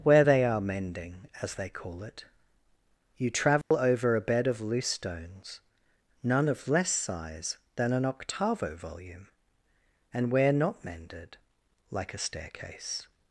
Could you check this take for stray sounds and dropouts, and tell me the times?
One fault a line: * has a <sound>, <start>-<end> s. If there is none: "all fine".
* has a dropout, 3.6-3.7 s